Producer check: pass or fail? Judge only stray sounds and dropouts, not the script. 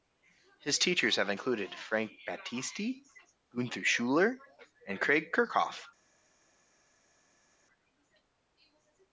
pass